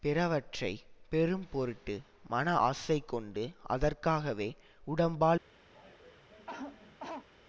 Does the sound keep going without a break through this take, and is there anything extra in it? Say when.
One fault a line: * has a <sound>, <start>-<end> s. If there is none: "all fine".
* has a cough, 5.7-7.3 s